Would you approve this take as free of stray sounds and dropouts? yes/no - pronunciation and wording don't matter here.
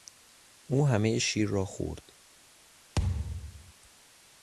no